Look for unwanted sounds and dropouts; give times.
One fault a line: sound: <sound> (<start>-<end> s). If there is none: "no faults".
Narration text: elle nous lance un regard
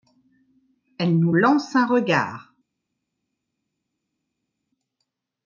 no faults